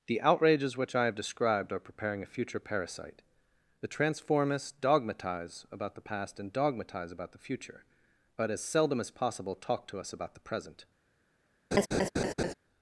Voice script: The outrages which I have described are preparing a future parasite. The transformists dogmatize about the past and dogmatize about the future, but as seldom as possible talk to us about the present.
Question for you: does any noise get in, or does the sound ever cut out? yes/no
yes